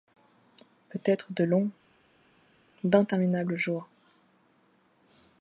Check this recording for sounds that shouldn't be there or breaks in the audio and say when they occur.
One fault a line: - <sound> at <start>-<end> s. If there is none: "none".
none